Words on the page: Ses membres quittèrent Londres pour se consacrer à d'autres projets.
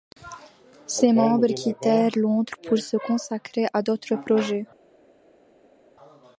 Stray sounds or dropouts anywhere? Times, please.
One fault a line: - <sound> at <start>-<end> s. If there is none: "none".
none